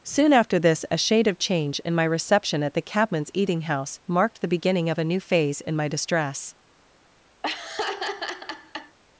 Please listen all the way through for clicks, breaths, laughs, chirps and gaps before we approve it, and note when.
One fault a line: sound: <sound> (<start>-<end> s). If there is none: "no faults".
sound: laugh (7.4-9.0 s)